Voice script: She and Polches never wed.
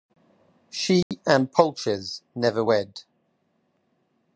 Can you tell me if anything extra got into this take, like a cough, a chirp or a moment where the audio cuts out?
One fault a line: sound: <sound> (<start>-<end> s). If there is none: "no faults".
sound: dropout (1.0-1.1 s)